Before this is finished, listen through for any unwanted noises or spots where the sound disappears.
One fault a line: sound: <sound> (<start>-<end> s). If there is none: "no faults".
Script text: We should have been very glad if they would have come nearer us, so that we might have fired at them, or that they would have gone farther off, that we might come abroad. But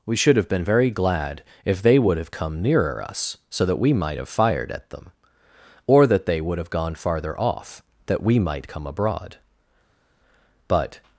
no faults